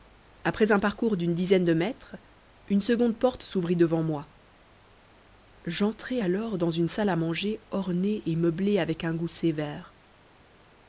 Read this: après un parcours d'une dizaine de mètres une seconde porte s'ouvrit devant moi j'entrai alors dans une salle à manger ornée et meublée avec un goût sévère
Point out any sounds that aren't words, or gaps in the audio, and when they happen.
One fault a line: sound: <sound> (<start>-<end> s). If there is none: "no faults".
no faults